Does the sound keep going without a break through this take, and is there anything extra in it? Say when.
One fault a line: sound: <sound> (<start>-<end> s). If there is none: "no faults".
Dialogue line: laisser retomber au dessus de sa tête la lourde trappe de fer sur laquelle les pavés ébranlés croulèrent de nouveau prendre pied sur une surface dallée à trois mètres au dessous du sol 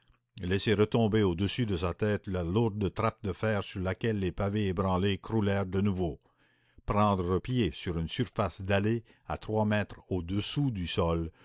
no faults